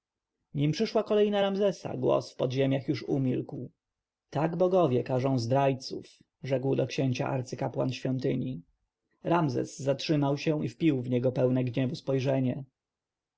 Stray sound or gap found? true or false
false